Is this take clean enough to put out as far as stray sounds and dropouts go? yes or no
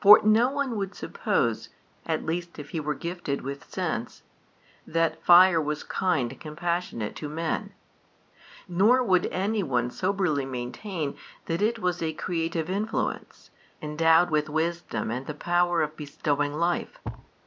no